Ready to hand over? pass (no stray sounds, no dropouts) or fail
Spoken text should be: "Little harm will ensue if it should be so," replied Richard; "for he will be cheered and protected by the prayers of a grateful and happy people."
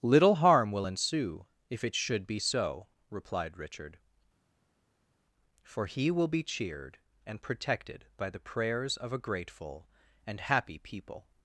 pass